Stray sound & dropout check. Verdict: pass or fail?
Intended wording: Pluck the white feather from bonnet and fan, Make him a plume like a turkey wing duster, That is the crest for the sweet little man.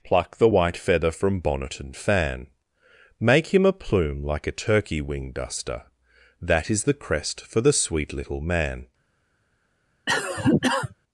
fail